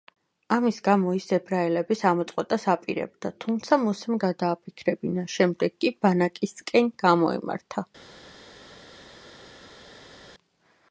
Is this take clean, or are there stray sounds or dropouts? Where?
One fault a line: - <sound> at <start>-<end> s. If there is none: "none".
none